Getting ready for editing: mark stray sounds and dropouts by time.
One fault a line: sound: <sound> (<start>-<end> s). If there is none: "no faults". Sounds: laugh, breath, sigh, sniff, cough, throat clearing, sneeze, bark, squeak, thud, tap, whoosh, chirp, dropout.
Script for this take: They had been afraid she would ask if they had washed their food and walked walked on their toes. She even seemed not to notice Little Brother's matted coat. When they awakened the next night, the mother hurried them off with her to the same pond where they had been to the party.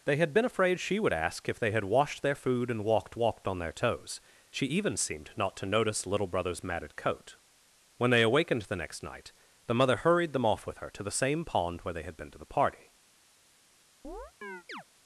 sound: chirp (14.0-14.8 s)